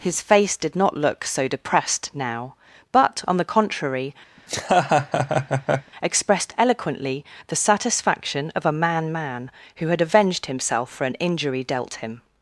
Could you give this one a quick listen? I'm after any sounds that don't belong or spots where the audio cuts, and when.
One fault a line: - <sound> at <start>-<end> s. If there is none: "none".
- laugh at 4.4-5.9 s